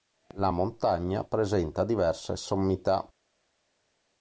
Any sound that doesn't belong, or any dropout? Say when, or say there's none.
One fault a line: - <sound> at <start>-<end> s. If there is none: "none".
none